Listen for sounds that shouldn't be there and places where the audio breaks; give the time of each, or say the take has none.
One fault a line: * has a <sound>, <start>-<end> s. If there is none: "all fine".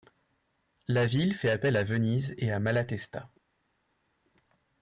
all fine